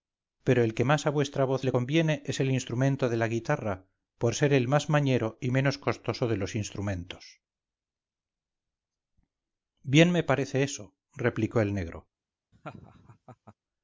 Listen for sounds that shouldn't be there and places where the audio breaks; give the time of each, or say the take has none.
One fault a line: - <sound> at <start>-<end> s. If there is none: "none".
- laugh at 12.5-13.6 s